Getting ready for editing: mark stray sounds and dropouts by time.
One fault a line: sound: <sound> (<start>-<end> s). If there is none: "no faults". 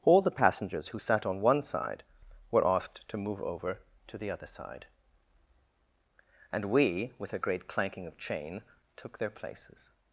no faults